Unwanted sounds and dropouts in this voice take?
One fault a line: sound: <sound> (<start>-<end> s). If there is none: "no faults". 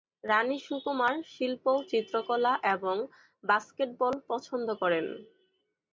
no faults